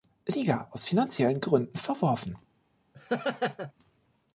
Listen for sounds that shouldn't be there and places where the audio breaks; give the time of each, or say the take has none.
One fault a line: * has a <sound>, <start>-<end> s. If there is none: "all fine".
* has a laugh, 2.9-3.7 s